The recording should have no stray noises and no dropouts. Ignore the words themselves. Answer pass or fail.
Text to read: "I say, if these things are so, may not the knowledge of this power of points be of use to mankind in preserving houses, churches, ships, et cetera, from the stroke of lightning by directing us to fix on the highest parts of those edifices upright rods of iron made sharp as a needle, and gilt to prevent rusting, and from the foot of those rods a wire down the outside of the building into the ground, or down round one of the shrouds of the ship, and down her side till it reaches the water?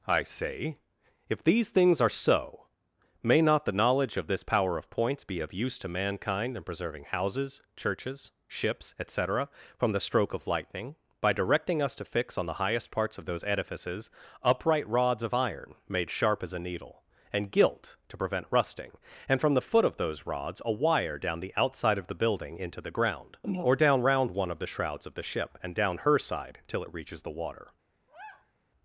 fail